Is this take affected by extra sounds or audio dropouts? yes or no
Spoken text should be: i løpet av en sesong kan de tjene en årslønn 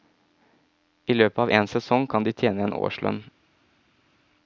no